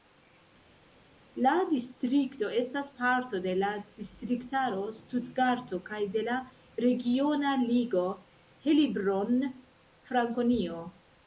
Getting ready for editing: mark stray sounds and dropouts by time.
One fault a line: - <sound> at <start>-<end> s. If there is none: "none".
none